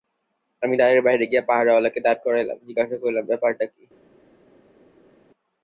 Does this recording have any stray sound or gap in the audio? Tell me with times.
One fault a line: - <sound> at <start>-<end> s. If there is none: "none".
none